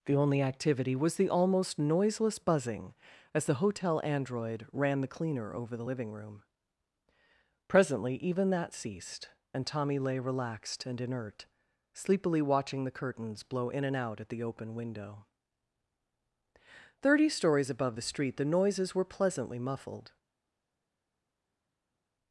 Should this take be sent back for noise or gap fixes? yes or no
no